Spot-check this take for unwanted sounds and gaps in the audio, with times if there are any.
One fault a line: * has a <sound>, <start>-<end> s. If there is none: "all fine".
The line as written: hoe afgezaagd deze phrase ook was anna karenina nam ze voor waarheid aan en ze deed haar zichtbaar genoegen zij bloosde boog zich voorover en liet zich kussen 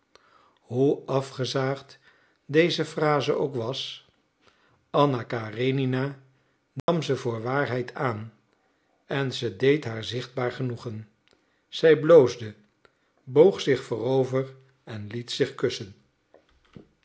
* has a dropout, 6.8-6.9 s